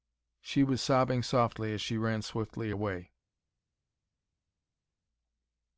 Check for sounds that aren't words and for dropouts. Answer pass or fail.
pass